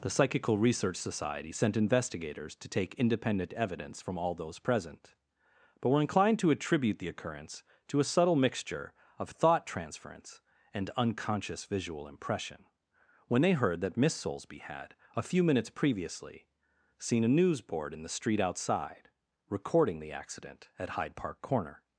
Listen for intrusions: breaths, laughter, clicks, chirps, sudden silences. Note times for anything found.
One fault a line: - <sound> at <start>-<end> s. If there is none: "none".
none